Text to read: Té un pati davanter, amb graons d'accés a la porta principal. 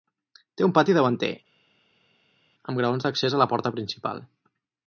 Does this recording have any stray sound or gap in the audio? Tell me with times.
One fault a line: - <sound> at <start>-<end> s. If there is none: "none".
none